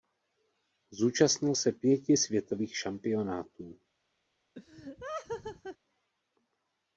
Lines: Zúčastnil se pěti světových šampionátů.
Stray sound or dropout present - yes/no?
yes